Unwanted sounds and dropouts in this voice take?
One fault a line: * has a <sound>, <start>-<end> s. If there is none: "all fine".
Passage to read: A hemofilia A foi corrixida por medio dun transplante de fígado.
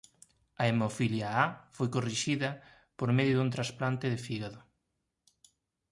all fine